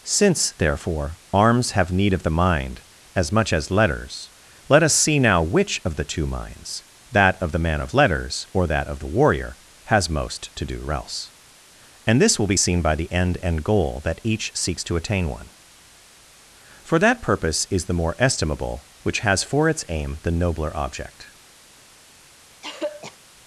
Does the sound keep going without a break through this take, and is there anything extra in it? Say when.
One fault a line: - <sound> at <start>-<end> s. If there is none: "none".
- throat clearing at 22.6-23.2 s